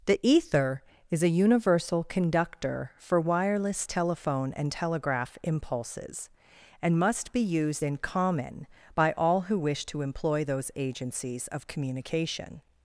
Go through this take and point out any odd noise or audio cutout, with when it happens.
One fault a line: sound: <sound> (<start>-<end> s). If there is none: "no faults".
no faults